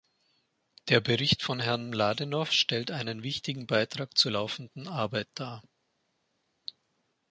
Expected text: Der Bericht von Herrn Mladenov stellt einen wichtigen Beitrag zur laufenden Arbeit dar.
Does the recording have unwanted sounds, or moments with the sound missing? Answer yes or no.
no